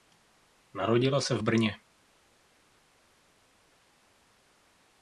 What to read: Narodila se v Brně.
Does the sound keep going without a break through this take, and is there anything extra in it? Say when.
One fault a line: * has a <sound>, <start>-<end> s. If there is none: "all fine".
all fine